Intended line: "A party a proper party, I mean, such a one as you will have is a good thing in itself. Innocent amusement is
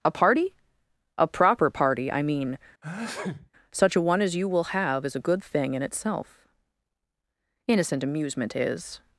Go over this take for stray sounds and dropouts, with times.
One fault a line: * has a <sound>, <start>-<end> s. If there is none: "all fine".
* has a sneeze, 2.8-3.5 s